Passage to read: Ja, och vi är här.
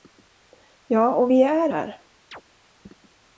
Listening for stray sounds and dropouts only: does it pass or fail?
fail